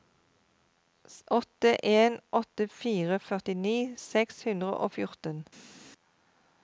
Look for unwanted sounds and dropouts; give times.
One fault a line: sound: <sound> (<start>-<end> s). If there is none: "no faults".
no faults